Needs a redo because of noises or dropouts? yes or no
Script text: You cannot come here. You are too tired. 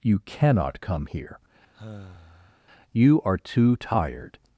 yes